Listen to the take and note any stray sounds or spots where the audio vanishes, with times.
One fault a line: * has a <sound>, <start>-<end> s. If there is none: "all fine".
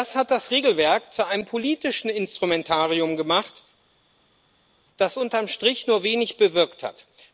all fine